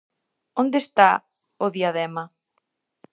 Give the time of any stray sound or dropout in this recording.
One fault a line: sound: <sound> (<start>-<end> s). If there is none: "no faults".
no faults